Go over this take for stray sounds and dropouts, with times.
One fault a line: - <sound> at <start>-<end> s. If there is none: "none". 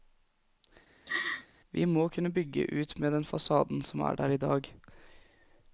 - laugh at 1.1-1.5 s